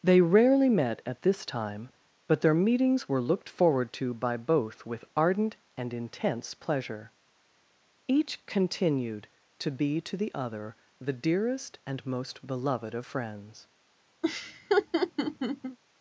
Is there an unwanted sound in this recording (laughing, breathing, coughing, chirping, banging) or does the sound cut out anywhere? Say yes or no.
yes